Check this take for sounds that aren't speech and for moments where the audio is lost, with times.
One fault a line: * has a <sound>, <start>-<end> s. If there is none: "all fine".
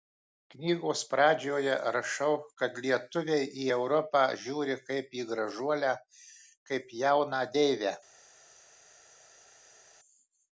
all fine